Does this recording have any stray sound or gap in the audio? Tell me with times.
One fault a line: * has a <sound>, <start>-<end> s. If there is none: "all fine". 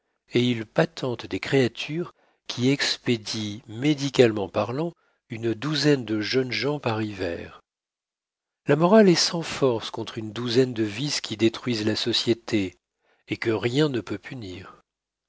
all fine